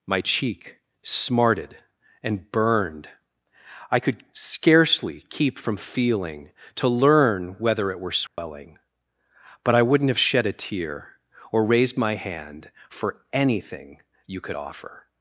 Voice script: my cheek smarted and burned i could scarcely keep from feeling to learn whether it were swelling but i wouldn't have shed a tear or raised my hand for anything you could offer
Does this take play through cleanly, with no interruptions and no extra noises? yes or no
no